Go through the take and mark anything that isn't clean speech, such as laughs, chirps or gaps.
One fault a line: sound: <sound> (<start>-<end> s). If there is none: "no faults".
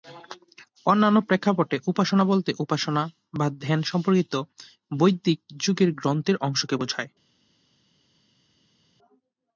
no faults